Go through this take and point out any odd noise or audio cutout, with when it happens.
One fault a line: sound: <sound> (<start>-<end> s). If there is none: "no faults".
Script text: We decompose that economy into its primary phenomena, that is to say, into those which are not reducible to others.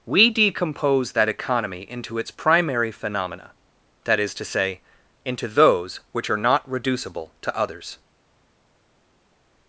no faults